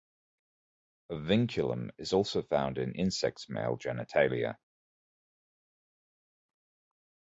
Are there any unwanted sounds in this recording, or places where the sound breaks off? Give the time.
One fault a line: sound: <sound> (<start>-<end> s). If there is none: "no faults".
no faults